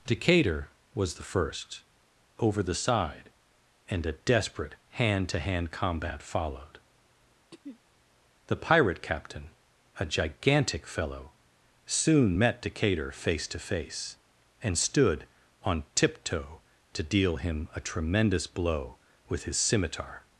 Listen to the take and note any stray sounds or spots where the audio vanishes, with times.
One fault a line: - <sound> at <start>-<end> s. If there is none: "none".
- throat clearing at 7.5-7.8 s